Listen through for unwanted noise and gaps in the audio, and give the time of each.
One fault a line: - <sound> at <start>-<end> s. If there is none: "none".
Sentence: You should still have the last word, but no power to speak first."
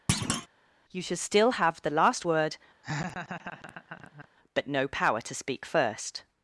- thud at 0.1-0.5 s
- laugh at 2.8-4.3 s